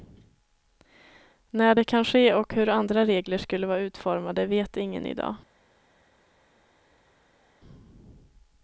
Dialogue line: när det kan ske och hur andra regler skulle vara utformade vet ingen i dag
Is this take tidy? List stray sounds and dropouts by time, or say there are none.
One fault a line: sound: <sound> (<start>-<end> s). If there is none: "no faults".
no faults